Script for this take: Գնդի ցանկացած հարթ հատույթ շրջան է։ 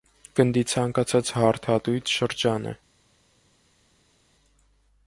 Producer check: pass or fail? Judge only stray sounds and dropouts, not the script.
pass